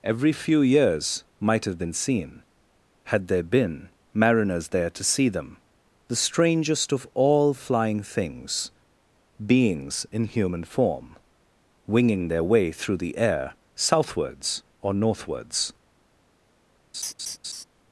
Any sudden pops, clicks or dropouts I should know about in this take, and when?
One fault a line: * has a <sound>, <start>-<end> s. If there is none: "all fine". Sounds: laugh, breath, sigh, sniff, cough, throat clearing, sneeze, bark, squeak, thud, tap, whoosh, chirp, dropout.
* has a laugh, 16.9-17.6 s